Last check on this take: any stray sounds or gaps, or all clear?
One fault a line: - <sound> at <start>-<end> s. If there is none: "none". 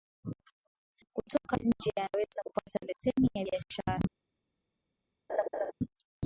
- laugh at 5.3-5.7 s